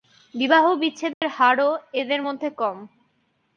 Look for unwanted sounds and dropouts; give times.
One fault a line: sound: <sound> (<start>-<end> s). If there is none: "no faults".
sound: dropout (1.1-1.2 s)